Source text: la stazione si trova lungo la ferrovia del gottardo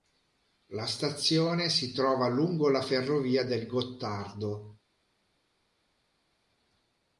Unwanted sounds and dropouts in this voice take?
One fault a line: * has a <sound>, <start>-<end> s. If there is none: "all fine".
all fine